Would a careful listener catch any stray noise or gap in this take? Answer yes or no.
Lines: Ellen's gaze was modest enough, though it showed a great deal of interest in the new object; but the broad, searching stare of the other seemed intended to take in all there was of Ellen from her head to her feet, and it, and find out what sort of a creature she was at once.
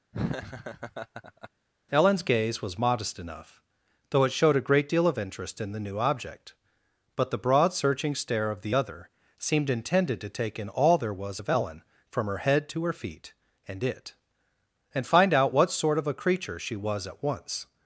yes